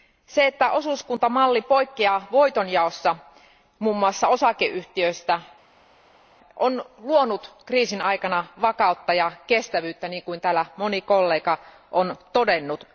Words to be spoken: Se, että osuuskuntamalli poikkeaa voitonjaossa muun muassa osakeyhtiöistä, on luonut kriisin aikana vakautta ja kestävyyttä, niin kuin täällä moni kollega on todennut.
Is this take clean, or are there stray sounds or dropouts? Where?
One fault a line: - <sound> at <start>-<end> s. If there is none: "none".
none